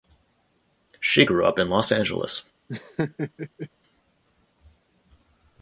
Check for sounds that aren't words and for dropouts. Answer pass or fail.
fail